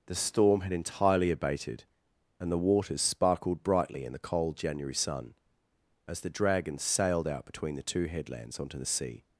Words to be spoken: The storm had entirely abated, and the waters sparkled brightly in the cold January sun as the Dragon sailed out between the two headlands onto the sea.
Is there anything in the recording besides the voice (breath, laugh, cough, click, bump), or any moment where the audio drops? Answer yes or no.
no